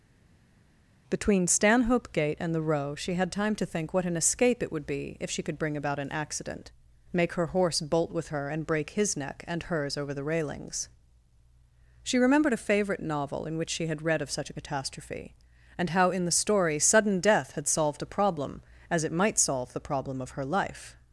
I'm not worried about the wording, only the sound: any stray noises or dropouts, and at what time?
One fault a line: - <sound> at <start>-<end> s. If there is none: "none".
none